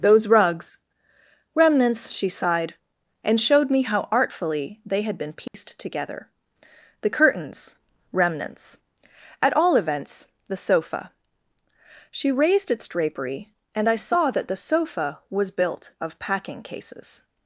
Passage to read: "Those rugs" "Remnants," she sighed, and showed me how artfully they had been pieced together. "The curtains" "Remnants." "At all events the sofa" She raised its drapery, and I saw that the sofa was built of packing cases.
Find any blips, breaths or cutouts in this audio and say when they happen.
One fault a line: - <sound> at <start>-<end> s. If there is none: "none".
- dropout at 5.5-5.5 s